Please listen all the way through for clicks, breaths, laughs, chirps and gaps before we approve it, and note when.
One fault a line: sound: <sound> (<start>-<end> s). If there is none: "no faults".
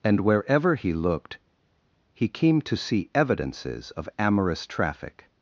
no faults